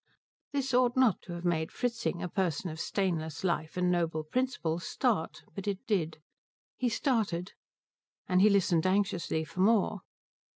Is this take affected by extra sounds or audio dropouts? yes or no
no